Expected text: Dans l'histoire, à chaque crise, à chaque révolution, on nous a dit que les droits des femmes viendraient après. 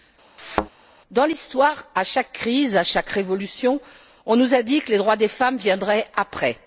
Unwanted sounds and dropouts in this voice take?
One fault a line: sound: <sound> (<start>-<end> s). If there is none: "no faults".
sound: thud (0.4-0.7 s)